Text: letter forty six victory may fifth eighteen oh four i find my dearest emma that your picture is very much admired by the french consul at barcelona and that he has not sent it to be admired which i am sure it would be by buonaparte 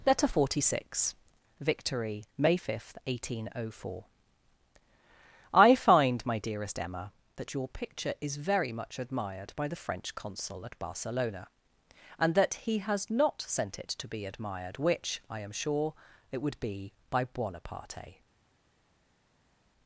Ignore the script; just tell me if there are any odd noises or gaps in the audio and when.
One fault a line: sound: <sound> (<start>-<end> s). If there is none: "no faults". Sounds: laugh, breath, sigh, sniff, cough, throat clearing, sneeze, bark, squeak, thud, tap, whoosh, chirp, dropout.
no faults